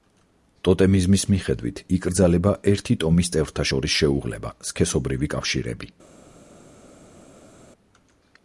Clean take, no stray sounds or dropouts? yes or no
yes